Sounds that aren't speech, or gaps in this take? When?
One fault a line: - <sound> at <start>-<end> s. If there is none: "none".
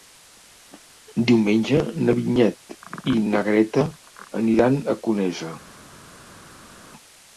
none